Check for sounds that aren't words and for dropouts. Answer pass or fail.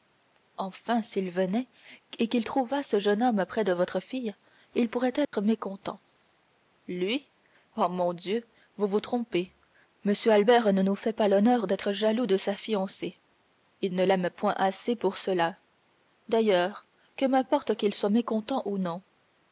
fail